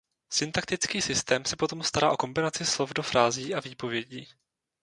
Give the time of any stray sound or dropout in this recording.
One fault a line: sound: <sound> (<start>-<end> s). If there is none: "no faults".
no faults